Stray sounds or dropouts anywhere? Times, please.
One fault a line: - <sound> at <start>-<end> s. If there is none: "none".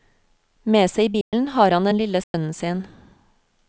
- dropout at 1.2-1.3 s
- dropout at 2.2-2.3 s